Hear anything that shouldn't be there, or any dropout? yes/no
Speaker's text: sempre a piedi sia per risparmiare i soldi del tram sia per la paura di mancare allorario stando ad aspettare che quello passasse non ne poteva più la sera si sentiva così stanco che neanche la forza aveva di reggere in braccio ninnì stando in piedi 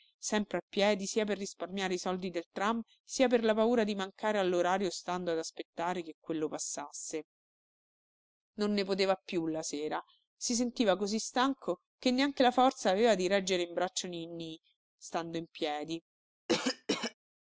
yes